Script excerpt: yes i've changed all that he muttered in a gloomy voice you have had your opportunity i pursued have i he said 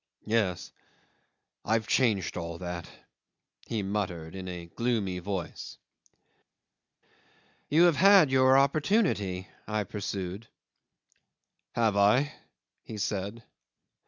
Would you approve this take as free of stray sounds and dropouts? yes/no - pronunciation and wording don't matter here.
yes